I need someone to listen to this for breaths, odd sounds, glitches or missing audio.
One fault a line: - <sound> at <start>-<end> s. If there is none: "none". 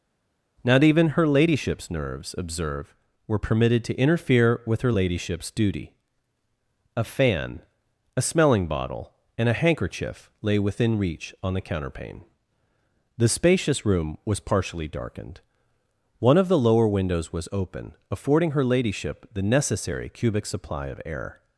none